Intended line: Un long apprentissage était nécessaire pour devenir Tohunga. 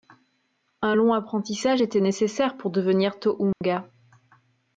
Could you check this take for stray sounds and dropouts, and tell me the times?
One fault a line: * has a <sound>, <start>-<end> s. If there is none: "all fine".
* has a dropout, 3.5-3.6 s